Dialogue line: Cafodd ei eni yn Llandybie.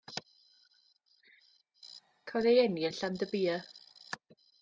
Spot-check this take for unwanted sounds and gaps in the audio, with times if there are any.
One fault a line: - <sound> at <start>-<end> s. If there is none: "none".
none